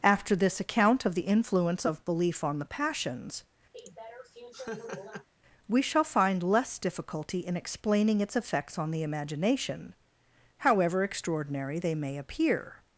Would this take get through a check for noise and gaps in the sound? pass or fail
fail